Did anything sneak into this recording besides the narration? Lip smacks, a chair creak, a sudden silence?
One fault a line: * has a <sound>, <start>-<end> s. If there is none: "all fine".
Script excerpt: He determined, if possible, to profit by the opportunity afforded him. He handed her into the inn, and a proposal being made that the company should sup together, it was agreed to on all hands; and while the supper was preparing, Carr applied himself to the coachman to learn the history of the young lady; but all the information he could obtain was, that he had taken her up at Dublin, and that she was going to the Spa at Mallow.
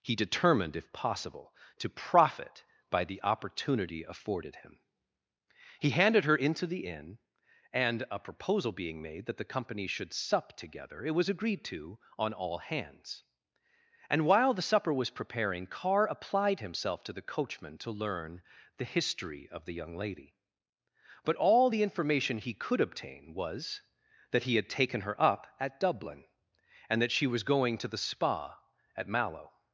all fine